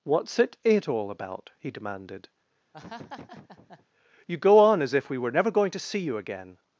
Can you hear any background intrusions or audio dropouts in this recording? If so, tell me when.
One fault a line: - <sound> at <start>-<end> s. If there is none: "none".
- laugh at 2.7-3.9 s